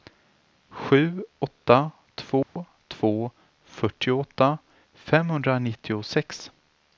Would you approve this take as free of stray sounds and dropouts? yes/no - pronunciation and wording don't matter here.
no